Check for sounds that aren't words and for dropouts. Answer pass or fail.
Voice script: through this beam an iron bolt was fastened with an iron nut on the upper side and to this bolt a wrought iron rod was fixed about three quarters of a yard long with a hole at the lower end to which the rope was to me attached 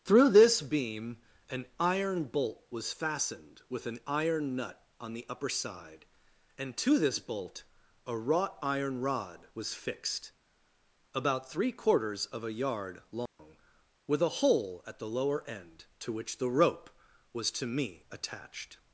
fail